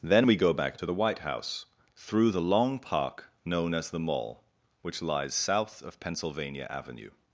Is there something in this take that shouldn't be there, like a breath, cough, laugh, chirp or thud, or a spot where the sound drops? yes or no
no